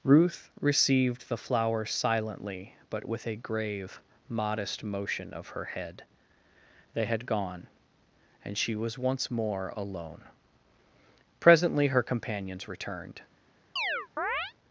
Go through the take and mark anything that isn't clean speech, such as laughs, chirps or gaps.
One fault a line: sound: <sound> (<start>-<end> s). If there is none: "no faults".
sound: chirp (13.8-14.5 s)